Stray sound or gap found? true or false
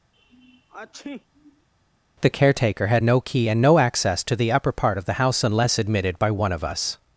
true